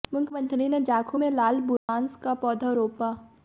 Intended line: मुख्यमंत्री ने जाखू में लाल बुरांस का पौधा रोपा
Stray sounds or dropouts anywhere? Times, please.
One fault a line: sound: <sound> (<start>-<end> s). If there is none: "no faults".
sound: dropout (1.8-1.9 s)